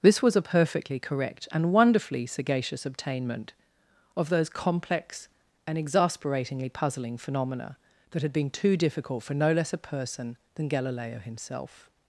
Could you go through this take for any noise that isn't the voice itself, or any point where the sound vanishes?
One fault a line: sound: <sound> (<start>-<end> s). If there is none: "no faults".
no faults